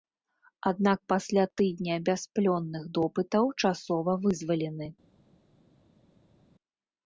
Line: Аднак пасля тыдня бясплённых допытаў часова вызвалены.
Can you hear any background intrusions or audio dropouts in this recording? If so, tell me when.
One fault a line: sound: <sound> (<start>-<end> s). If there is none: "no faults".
no faults